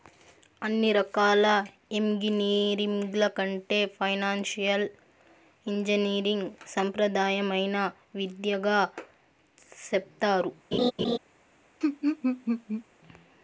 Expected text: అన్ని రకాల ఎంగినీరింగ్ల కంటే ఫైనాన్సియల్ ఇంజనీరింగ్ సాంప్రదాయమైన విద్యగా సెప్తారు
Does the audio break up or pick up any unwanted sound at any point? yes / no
yes